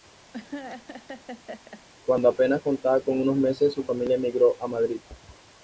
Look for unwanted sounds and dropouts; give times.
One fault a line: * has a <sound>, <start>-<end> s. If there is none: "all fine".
* has a laugh, 0.3-1.8 s